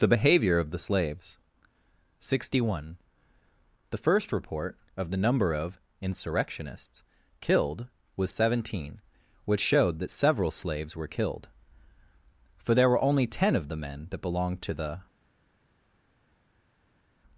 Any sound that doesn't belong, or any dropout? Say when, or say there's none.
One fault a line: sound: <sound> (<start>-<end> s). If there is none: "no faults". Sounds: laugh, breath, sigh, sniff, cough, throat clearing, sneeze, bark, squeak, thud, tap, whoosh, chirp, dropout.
no faults